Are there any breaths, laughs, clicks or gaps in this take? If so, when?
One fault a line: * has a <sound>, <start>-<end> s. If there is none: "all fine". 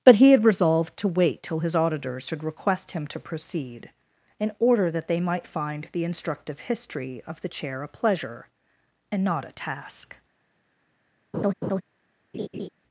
* has a laugh, 11.3-11.8 s
* has a laugh, 12.3-12.7 s